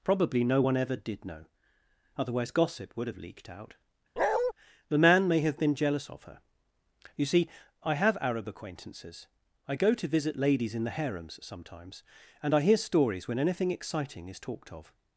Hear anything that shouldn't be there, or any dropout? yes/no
yes